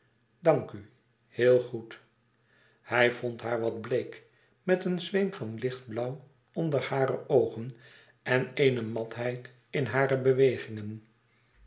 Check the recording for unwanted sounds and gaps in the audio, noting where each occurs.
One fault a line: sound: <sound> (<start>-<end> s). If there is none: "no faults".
no faults